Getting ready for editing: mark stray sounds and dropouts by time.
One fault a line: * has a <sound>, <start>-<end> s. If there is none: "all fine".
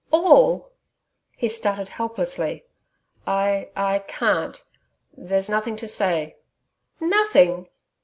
all fine